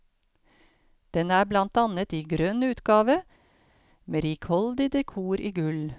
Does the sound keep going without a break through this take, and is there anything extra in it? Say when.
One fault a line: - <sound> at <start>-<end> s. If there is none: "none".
none